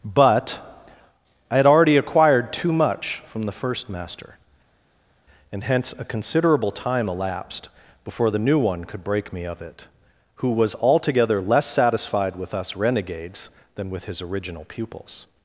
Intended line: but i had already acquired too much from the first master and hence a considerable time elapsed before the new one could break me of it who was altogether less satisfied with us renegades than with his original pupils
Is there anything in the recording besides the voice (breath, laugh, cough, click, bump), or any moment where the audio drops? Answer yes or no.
no